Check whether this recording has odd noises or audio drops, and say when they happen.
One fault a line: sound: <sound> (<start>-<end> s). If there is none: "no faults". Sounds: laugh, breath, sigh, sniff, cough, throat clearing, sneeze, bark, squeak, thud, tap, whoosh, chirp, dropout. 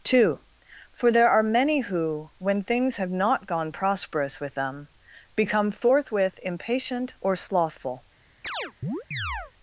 sound: chirp (8.4-9.5 s)